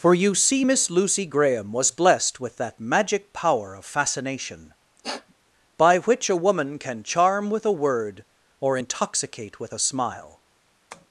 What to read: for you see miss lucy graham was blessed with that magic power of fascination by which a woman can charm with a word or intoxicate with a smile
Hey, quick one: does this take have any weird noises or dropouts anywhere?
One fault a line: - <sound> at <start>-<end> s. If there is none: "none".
- sniff at 5.0-5.3 s
- tap at 10.9-11.1 s